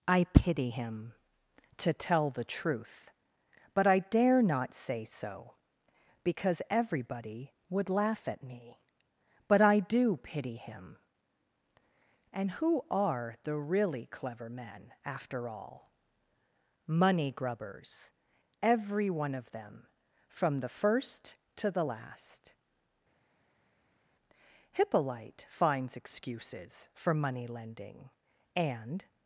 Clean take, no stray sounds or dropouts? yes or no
yes